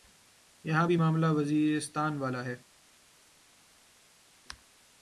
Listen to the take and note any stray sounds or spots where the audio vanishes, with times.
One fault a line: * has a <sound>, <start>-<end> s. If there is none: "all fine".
all fine